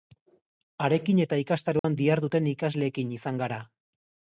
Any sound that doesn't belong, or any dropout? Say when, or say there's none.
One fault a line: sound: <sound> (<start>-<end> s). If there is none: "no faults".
sound: dropout (1.8-1.8 s)